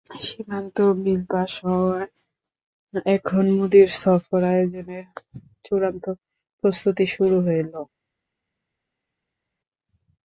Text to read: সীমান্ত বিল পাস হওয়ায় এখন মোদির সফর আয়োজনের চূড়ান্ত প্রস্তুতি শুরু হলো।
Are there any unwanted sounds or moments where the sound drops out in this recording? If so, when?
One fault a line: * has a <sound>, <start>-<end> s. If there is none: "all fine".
all fine